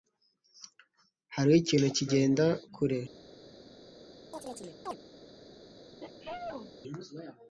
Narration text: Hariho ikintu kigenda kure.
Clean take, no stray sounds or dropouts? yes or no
no